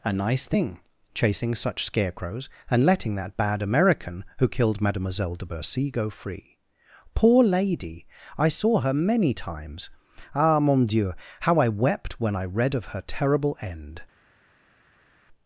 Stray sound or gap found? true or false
false